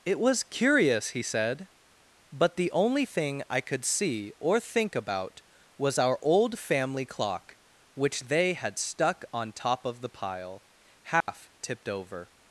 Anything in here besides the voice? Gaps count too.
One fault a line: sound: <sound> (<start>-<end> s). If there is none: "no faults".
sound: dropout (11.2-11.3 s)